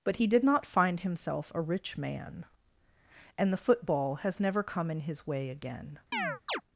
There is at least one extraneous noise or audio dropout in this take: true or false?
true